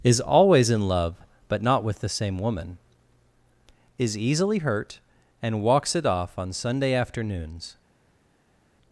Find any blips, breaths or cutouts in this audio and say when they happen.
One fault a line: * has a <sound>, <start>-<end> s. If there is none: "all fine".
all fine